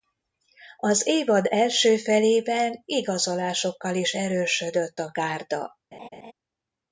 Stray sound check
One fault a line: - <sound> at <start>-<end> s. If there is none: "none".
- laugh at 5.9-6.3 s